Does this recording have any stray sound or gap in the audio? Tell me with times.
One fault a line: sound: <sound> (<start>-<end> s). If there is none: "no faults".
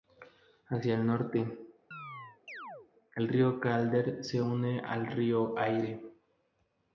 sound: chirp (1.9-2.9 s)